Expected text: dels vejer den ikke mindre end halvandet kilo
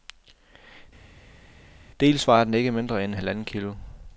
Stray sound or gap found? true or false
false